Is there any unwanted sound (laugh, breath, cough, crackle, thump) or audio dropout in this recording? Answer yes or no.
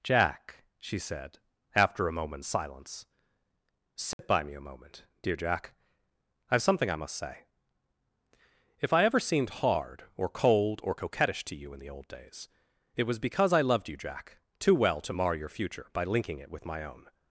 yes